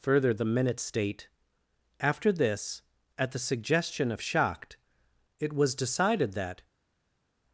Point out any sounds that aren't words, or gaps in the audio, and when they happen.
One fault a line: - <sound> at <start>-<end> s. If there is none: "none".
none